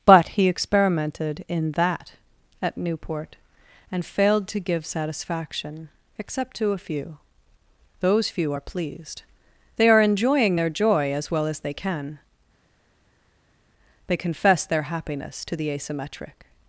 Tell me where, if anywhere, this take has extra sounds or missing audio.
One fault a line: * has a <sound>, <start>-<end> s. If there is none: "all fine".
all fine